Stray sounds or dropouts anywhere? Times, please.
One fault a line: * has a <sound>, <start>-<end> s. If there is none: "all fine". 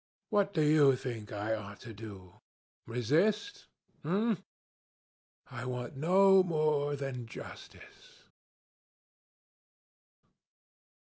all fine